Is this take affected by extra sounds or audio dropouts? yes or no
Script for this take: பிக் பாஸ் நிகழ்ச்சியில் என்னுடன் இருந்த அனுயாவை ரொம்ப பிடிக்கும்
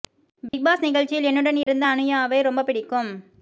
yes